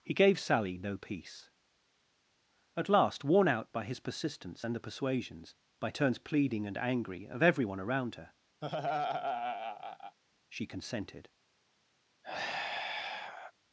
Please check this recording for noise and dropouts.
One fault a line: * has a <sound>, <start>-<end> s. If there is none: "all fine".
* has a laugh, 8.6-10.2 s
* has a sigh, 12.2-13.5 s